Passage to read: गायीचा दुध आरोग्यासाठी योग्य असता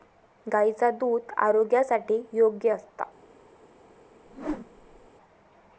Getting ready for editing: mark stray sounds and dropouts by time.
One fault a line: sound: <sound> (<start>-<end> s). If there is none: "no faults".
sound: whoosh (4.3-5.1 s)